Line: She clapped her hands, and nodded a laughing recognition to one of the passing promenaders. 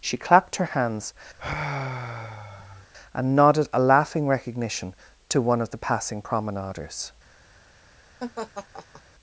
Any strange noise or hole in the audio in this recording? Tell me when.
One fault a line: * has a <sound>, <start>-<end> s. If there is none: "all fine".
* has a sigh, 1.4-2.9 s
* has a laugh, 8.2-9.0 s